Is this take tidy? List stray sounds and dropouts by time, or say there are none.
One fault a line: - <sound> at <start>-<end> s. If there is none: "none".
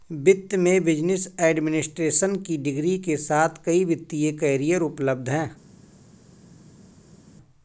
none